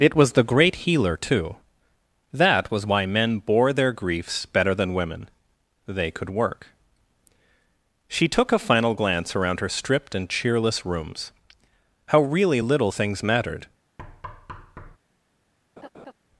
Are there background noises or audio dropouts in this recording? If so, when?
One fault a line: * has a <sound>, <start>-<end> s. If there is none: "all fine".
* has a thud, 14.0-15.0 s
* has a laugh, 15.8-16.1 s